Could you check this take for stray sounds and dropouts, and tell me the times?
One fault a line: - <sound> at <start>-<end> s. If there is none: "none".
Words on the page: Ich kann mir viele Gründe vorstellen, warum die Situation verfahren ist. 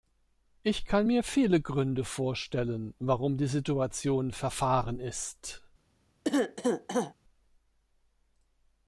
- cough at 6.2-7.1 s